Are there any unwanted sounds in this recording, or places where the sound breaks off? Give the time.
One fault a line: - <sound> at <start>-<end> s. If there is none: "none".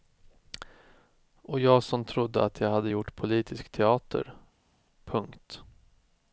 none